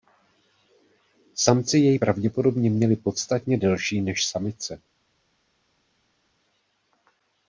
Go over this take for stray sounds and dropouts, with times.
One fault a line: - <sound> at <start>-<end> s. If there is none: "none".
none